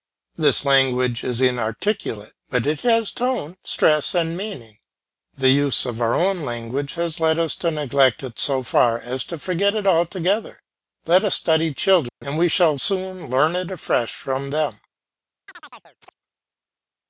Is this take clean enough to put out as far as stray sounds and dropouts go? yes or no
no